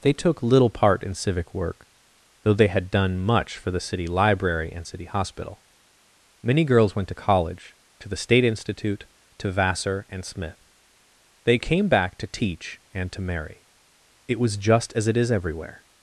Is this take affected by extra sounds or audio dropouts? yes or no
no